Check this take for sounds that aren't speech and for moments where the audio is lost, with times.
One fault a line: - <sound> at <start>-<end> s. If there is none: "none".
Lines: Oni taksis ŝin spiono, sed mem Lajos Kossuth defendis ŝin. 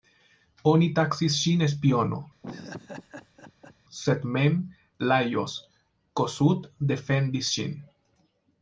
- laugh at 2.4-3.8 s